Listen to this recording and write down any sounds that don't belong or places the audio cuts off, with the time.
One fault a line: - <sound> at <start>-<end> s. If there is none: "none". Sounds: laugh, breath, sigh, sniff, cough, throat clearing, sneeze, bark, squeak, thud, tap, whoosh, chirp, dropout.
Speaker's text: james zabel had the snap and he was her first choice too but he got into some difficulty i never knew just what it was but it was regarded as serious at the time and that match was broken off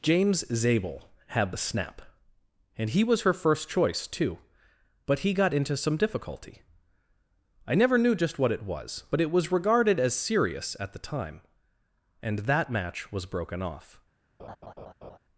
- laugh at 14.4-15.2 s